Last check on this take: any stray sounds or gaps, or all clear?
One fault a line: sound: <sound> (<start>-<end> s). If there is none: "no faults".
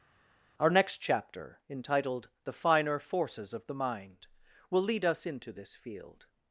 no faults